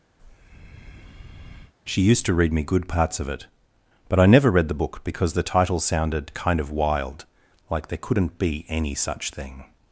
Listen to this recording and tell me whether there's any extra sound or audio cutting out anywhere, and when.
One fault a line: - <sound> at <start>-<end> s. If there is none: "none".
- breath at 0.2-1.7 s